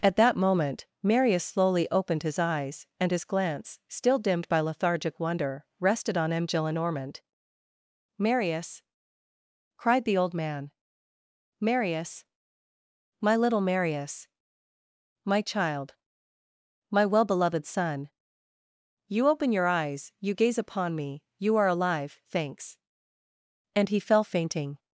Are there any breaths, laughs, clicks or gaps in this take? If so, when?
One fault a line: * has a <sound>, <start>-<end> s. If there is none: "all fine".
all fine